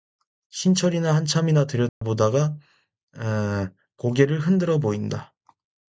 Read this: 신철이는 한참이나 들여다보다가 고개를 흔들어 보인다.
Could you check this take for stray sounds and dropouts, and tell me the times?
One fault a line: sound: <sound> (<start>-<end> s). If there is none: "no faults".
sound: dropout (1.9-2.0 s)